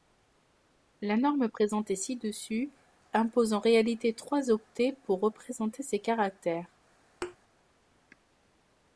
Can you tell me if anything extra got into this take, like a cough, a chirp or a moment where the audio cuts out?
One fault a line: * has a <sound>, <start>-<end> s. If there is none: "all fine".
* has a thud, 7.2-7.4 s